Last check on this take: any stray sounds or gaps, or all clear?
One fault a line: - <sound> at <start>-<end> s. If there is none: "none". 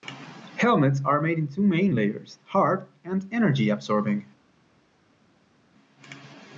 none